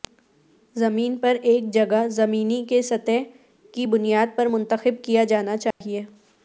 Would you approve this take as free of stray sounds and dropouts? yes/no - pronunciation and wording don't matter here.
no